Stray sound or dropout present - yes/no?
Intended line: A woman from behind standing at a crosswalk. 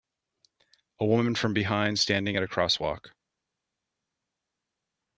no